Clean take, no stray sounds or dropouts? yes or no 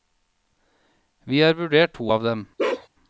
no